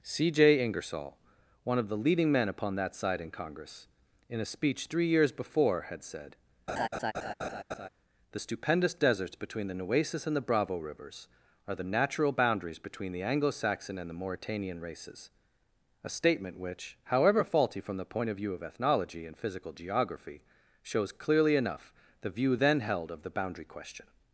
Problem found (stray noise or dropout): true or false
true